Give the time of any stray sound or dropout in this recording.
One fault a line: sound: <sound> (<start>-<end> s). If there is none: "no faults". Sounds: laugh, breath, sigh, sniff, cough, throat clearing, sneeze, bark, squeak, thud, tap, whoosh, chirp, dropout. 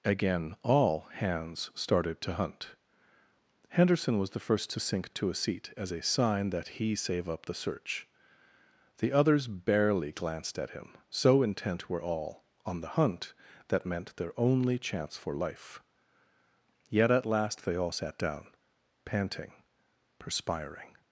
no faults